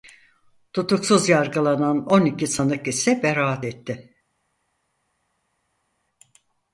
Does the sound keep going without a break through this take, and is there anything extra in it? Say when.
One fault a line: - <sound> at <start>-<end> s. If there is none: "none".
none